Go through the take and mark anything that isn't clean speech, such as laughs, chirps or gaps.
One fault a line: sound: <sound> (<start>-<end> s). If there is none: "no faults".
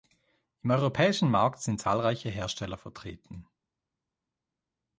no faults